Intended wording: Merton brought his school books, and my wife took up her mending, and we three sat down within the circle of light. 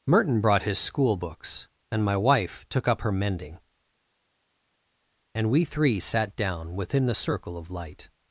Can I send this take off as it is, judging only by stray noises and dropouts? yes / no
yes